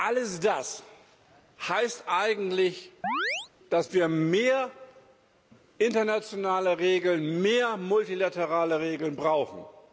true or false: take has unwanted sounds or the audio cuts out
true